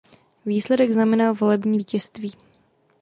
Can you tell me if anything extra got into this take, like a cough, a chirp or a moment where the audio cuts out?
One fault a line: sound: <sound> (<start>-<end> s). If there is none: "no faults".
no faults